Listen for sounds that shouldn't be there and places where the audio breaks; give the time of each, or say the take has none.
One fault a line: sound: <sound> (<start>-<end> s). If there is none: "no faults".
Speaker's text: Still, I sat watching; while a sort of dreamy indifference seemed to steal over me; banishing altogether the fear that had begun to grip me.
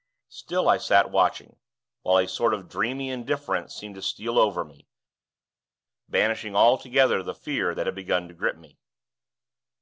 no faults